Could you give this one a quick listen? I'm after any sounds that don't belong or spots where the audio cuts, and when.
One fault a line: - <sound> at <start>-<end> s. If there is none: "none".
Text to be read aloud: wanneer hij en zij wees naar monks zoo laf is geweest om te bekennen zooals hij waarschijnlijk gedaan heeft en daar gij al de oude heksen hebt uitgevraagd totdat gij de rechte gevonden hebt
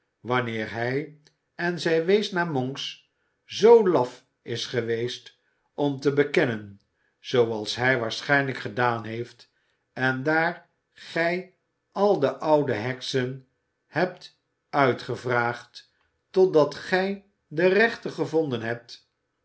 none